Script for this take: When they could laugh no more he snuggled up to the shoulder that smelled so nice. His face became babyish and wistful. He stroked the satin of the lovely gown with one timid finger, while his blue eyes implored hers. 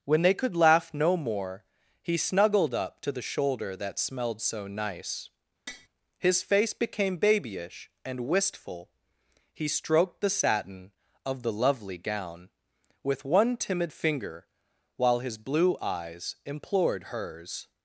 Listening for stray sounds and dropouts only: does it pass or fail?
fail